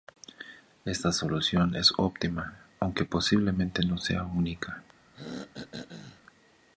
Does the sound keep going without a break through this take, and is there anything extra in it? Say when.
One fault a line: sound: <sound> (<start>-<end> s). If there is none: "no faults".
sound: throat clearing (5.1-6.2 s)